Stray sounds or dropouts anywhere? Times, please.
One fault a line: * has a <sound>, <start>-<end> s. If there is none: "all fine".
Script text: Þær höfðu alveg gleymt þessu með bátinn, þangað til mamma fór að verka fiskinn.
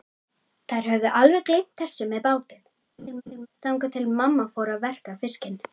* has a laugh, 3.0-3.5 s